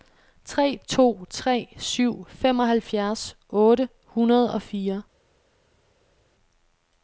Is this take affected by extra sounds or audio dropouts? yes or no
no